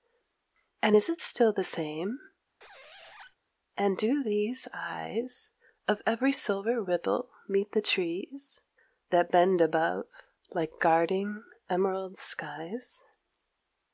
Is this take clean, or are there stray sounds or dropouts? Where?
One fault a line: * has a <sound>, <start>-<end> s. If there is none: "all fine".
* has a squeak, 2.6-3.4 s